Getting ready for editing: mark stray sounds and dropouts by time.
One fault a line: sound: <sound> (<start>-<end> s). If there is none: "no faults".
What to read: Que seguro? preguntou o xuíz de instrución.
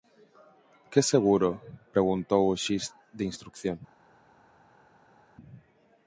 no faults